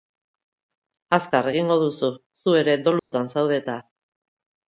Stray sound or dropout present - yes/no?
yes